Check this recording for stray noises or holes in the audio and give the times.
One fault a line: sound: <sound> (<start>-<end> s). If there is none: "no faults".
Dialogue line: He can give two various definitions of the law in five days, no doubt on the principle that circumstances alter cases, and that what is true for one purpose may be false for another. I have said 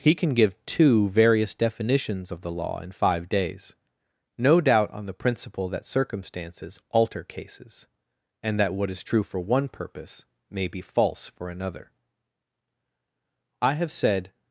no faults